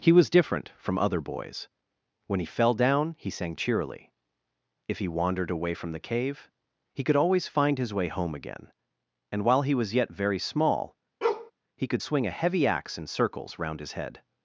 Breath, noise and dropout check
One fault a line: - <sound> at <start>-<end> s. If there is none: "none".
- bark at 11.2-11.5 s